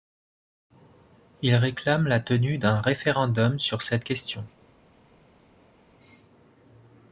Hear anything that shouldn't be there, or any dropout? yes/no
no